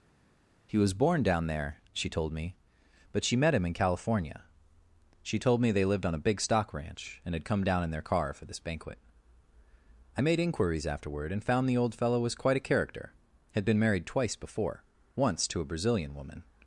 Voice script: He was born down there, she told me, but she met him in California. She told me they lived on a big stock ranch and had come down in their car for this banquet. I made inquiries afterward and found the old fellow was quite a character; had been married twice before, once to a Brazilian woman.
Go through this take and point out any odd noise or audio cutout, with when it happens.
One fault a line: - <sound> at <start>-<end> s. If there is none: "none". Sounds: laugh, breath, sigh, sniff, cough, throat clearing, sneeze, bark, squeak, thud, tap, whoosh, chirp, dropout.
none